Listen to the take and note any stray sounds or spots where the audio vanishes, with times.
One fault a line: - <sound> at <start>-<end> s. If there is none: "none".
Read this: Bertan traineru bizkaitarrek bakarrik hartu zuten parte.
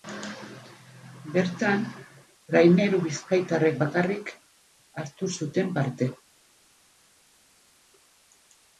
none